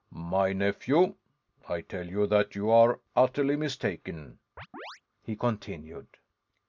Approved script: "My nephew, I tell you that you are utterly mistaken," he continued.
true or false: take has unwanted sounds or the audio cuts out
true